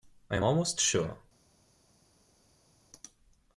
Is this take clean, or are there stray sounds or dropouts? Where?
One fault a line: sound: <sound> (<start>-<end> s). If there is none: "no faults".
no faults